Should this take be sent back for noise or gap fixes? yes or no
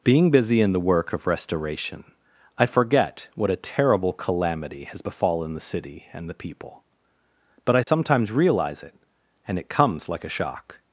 yes